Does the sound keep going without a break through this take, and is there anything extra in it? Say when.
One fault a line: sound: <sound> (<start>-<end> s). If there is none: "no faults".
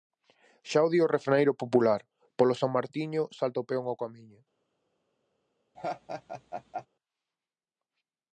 sound: laugh (5.7-6.9 s)